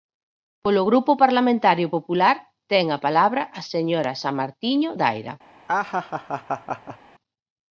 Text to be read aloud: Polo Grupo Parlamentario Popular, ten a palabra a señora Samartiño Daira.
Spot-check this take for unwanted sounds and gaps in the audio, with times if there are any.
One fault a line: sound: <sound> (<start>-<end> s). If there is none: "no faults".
sound: laugh (5.7-7.0 s)